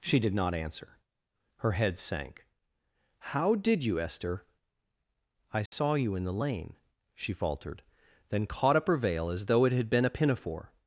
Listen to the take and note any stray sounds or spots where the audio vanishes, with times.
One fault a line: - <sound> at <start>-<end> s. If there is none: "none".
- dropout at 5.7-5.7 s